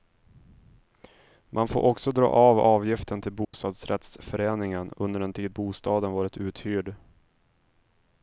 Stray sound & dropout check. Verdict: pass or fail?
fail